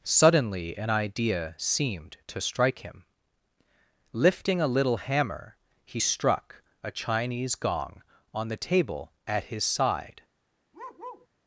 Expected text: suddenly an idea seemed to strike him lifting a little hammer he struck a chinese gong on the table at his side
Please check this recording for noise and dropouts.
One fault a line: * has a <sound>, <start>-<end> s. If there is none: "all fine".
* has a bark, 10.7-11.3 s